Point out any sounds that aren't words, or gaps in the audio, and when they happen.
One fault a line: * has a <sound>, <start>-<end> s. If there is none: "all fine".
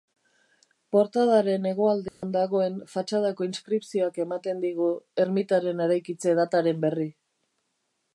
* has a dropout, 2.1-2.2 s